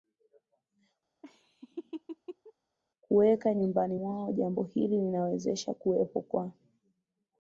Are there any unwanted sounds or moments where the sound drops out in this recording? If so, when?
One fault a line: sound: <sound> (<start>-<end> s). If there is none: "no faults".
sound: laugh (1.2-2.5 s)